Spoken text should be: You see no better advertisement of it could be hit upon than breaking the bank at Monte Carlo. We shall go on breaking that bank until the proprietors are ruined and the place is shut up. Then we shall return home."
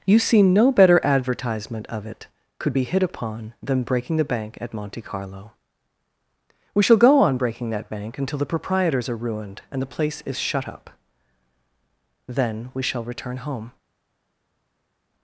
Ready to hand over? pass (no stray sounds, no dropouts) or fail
pass